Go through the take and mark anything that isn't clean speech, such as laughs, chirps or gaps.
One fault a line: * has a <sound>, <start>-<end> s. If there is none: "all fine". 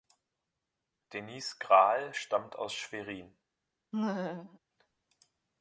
* has a laugh, 3.9-4.6 s